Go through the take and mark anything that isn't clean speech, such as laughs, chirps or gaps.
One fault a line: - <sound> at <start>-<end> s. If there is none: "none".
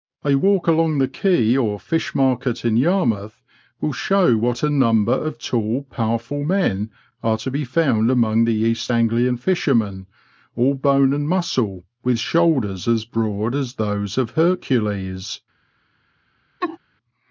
- laugh at 16.6-16.8 s